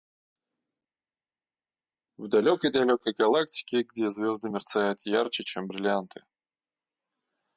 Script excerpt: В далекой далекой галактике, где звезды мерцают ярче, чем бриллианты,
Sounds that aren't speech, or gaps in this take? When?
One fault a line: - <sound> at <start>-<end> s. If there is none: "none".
none